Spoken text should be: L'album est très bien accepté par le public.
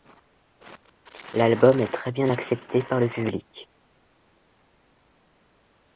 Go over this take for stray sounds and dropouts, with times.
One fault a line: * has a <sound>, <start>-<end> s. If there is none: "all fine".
all fine